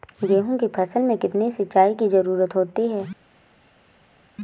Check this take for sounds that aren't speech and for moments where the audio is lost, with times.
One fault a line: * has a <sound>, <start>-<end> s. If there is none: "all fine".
all fine